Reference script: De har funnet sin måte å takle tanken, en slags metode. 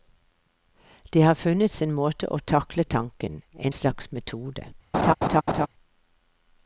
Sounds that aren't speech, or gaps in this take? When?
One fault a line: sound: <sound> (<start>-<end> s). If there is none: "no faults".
sound: laugh (4.9-5.7 s)